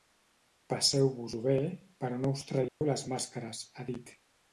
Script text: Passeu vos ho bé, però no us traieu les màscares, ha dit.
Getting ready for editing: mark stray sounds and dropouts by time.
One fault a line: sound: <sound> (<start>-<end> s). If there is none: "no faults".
sound: dropout (2.7-2.8 s)